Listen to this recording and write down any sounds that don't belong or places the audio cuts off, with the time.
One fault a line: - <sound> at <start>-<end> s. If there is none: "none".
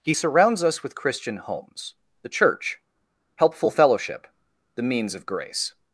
none